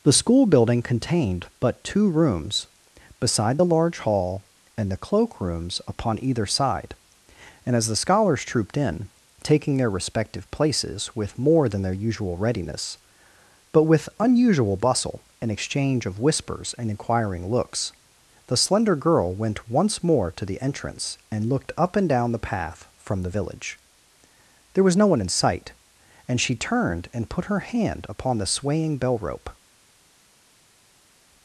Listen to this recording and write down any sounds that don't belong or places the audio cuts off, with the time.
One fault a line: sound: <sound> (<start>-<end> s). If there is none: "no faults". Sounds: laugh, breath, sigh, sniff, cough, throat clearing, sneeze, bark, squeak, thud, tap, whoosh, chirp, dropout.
no faults